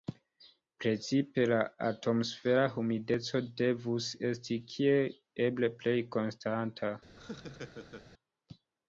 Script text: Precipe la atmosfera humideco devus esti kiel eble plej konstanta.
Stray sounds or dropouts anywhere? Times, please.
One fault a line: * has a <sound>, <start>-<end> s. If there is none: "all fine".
* has a laugh, 7.2-8.1 s